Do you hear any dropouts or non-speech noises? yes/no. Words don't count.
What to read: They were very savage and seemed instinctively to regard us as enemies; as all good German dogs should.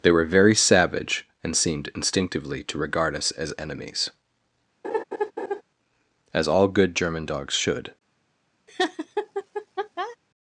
yes